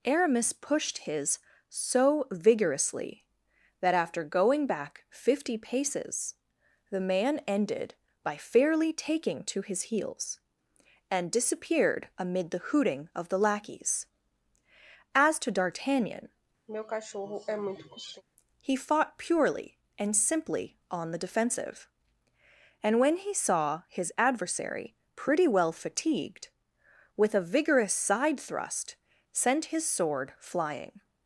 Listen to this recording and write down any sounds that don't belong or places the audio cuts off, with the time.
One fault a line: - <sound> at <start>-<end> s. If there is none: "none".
- throat clearing at 16.7-18.2 s